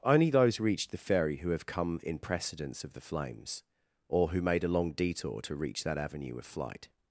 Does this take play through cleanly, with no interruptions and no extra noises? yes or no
yes